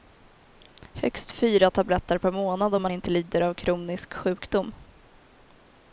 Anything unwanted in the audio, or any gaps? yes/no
no